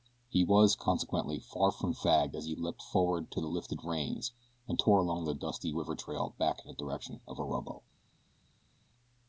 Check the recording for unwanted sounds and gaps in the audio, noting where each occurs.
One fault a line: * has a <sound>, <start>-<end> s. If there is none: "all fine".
all fine